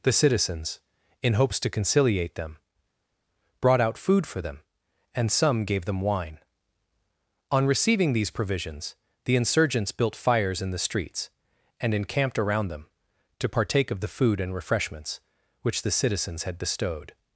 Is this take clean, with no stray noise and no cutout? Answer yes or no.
yes